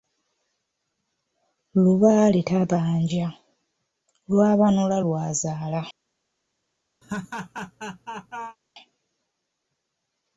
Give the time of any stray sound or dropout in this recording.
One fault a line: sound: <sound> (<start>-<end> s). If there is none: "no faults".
sound: laugh (7.0-8.6 s)